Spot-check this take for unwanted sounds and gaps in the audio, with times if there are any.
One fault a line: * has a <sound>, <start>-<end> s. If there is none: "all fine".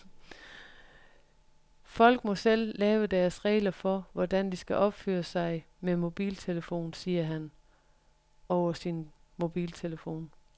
all fine